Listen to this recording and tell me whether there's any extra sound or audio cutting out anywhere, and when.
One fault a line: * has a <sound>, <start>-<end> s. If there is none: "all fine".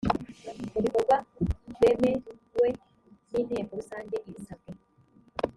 all fine